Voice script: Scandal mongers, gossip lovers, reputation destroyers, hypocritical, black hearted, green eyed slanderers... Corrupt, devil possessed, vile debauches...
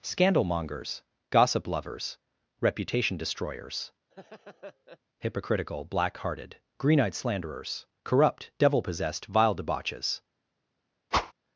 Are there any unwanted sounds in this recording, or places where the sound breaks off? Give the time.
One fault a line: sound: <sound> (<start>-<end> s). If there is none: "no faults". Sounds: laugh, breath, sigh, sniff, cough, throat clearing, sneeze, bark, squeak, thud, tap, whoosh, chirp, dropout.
sound: laugh (4.1-5.0 s)
sound: whoosh (11.1-11.3 s)